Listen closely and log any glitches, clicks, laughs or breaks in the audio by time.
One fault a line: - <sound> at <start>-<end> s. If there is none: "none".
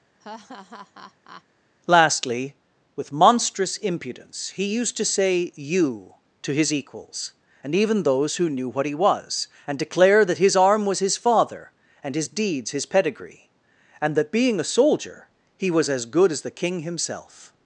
- laugh at 0.2-1.4 s